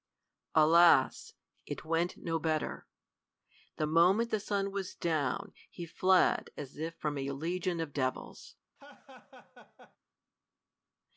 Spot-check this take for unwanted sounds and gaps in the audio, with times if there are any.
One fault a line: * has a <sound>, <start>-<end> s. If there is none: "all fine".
* has a laugh, 8.8-10.0 s